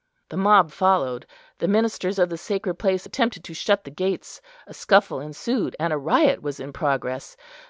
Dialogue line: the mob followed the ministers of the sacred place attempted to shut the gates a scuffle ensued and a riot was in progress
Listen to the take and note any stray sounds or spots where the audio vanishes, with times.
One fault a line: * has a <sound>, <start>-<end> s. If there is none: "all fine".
all fine